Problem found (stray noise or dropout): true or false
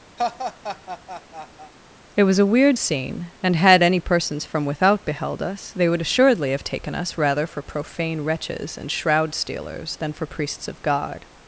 true